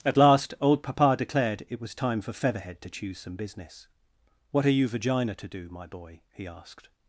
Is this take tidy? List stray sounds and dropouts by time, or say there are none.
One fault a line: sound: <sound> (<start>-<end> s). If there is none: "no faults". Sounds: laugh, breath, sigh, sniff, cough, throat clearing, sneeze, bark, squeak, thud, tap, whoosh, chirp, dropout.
no faults